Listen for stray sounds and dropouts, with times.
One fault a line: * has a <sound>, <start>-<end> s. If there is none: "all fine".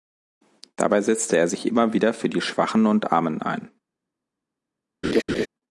* has a laugh, 5.0-5.5 s